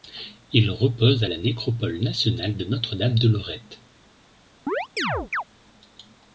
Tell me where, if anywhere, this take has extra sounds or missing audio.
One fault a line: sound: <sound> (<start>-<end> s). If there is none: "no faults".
sound: chirp (4.7-5.4 s)